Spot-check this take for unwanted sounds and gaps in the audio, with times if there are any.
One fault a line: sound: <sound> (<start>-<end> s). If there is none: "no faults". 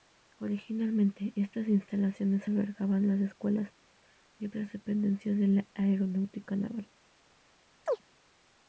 sound: chirp (7.9-8.0 s)